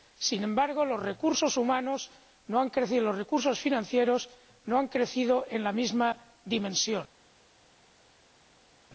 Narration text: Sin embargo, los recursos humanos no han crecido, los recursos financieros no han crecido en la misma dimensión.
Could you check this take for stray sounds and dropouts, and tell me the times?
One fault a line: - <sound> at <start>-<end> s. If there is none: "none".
none